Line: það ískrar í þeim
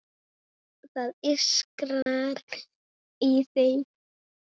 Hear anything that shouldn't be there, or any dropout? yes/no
yes